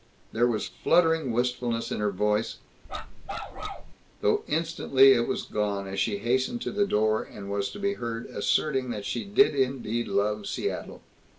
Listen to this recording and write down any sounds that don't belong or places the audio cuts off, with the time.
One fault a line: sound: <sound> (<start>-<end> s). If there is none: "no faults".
sound: bark (2.9-3.9 s)